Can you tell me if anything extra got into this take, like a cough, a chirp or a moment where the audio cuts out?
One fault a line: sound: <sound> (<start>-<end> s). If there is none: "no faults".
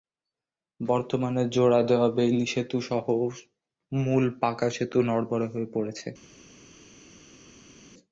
no faults